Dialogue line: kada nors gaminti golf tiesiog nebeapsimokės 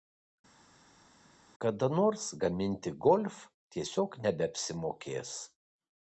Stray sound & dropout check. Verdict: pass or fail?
pass